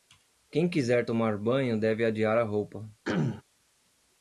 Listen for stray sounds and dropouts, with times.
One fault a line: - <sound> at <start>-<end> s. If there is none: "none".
- throat clearing at 3.0-3.4 s